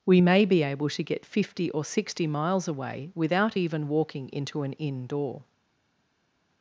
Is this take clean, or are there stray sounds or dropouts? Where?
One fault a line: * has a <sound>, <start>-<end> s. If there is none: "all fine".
all fine